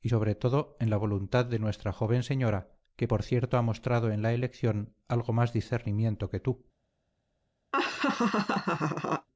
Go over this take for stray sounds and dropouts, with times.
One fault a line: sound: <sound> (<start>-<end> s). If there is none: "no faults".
sound: laugh (7.7-9.3 s)